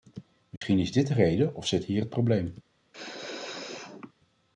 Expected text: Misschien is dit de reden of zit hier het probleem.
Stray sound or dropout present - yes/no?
yes